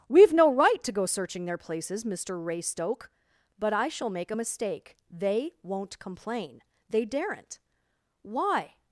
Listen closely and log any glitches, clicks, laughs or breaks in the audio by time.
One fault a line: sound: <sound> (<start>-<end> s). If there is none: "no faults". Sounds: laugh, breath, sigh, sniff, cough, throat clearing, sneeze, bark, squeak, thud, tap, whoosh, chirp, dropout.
no faults